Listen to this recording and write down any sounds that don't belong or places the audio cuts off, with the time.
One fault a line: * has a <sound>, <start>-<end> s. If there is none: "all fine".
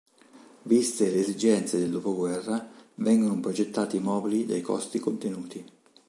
all fine